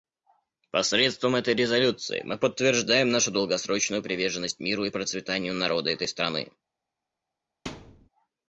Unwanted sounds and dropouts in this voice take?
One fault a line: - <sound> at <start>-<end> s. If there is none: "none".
- thud at 7.7-8.1 s